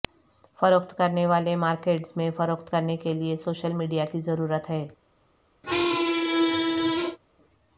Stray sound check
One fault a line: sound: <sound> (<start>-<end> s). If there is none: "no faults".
sound: squeak (5.6-7.2 s)